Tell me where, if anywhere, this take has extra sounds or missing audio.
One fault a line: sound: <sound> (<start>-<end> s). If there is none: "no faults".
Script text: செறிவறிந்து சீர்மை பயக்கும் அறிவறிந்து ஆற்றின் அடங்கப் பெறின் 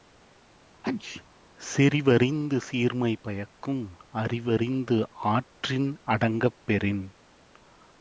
sound: sneeze (0.8-1.2 s)